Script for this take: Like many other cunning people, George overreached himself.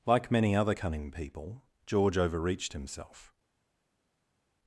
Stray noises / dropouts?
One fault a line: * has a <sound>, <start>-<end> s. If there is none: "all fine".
all fine